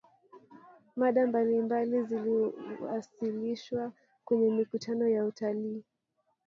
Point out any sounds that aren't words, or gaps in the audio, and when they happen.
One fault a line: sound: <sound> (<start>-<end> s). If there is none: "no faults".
no faults